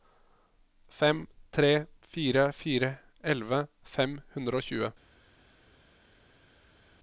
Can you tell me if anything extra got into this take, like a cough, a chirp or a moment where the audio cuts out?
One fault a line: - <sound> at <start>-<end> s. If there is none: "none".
none